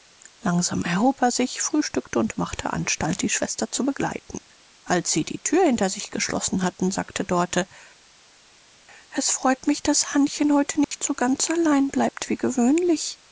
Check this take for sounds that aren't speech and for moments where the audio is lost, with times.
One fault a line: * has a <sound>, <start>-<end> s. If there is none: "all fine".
* has a dropout, 10.8-10.9 s